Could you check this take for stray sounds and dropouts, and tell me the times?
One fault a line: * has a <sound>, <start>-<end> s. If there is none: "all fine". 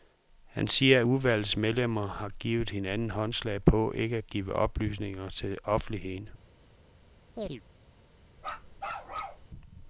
* has a chirp, 7.4-7.6 s
* has a bark, 8.4-9.5 s